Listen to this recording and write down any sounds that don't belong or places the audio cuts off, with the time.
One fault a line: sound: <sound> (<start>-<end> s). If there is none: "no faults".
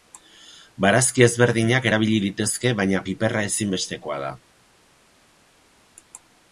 no faults